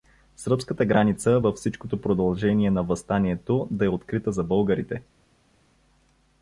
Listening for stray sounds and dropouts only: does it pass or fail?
pass